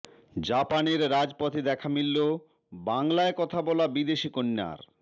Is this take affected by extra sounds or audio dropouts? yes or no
no